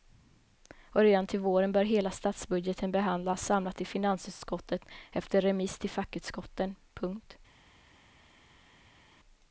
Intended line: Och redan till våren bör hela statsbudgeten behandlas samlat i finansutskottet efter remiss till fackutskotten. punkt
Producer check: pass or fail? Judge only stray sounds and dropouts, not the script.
pass